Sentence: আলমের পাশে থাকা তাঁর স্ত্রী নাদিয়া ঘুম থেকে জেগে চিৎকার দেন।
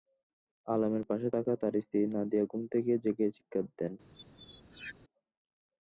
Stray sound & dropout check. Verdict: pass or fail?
fail